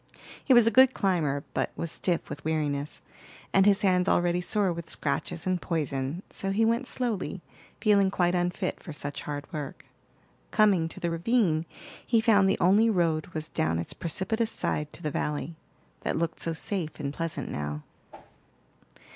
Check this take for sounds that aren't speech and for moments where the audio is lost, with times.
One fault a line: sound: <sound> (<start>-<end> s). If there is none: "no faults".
sound: whoosh (18.1-18.4 s)